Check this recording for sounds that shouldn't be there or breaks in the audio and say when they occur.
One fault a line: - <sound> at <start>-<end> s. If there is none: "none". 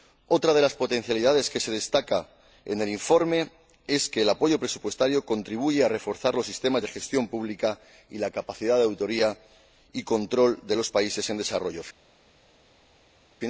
none